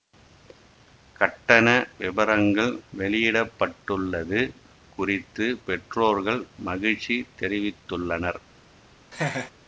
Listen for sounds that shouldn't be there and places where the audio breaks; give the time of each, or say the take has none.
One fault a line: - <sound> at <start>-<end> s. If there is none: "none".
- laugh at 9.1-9.5 s